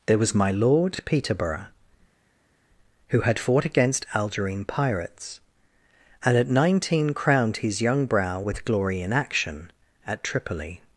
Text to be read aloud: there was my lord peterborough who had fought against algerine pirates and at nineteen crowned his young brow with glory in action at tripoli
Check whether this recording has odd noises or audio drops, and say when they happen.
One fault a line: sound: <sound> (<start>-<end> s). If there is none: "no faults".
no faults